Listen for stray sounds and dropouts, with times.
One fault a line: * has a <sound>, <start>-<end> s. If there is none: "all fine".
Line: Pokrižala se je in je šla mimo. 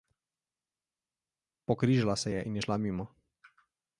all fine